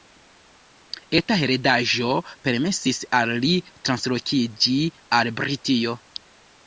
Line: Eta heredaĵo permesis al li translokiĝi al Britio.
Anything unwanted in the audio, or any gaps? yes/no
no